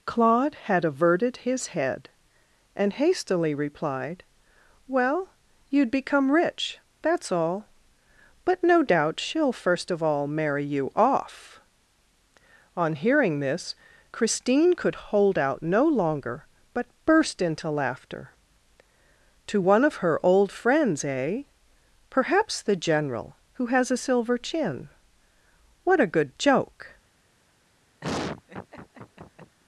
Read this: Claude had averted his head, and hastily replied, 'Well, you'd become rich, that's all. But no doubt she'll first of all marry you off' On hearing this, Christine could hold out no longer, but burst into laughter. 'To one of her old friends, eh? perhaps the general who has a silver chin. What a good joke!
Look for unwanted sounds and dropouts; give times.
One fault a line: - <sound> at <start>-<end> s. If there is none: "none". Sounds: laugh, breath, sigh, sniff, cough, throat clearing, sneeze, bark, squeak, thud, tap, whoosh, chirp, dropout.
- laugh at 28.0-29.6 s